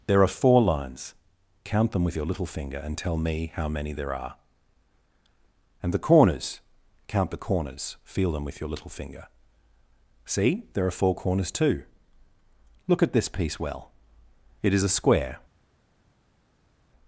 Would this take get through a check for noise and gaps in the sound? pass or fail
pass